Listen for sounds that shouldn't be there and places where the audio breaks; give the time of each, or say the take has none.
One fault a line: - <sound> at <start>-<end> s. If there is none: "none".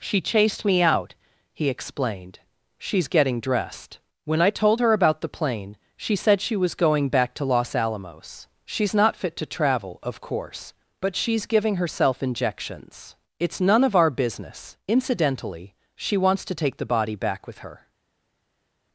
none